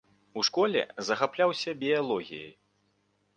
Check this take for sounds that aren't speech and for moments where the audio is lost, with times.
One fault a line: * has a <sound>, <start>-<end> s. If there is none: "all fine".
all fine